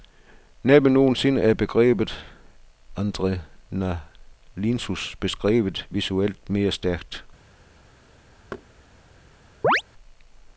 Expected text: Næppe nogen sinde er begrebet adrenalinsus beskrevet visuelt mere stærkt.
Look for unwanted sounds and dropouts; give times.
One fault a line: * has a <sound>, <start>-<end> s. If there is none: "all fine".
* has a thud, 8.5-8.7 s
* has a chirp, 9.6-9.8 s